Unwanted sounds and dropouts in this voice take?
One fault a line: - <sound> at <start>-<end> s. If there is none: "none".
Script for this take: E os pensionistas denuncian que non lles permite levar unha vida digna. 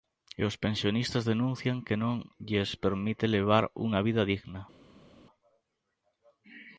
none